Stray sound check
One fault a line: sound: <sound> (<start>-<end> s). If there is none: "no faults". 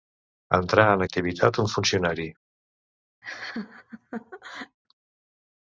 sound: laugh (3.2-4.8 s)